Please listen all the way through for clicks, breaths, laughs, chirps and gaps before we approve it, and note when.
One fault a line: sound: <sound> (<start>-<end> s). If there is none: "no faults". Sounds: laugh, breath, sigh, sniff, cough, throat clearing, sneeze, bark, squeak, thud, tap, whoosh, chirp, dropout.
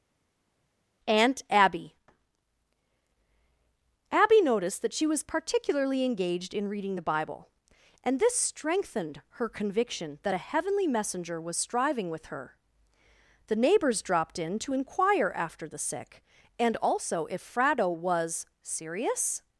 no faults